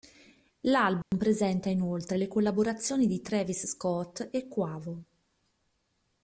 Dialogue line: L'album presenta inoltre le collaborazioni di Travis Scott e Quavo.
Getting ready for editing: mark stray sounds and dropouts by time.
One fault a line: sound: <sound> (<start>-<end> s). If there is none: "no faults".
sound: dropout (1.0-1.1 s)